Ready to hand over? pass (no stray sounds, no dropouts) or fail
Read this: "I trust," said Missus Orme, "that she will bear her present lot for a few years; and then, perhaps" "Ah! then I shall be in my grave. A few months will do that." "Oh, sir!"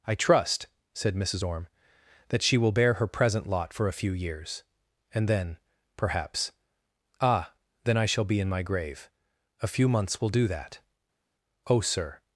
pass